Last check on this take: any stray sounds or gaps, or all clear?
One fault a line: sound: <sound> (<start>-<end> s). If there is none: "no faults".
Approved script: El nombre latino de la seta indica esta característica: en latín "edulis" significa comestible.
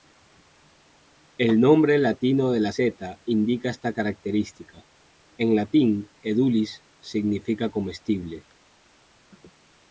no faults